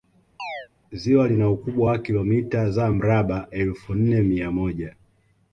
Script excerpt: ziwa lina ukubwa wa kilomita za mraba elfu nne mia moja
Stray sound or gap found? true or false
true